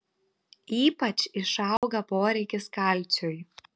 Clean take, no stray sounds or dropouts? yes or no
no